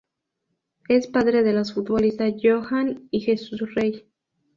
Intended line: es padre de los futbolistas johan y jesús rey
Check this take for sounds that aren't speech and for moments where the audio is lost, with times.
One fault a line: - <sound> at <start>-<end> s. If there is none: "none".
none